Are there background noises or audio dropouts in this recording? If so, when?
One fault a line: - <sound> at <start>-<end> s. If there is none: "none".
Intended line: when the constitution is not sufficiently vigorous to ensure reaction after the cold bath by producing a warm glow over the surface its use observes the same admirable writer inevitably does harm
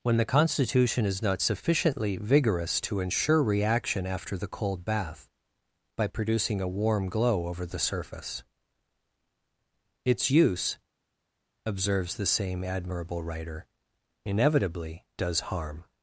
none